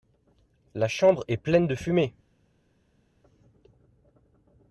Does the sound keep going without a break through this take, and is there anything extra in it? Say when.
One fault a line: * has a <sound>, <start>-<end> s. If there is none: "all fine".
all fine